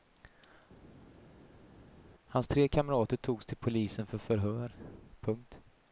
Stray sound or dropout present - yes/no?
no